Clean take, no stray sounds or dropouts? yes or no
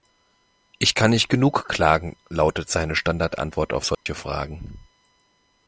no